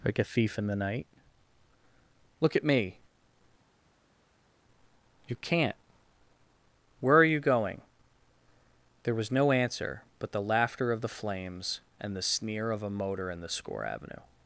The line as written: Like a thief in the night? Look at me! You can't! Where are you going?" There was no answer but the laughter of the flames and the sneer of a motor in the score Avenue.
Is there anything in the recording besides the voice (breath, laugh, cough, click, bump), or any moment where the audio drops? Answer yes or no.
no